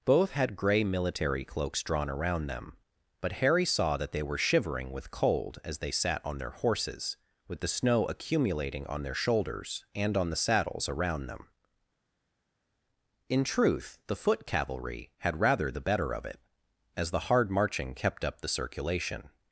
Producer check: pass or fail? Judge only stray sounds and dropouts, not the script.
pass